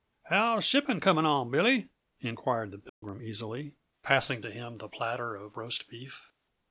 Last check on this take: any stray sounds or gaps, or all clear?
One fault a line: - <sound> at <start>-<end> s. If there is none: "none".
- dropout at 2.9-3.0 s